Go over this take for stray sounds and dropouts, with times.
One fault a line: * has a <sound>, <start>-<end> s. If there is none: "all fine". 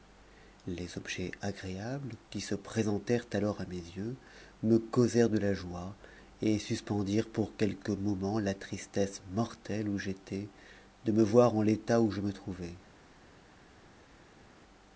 all fine